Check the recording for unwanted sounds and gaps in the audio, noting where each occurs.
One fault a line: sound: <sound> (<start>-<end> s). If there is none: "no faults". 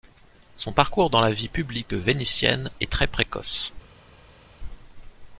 no faults